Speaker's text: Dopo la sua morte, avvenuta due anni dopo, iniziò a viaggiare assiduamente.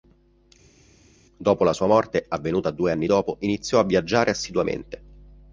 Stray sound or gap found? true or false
false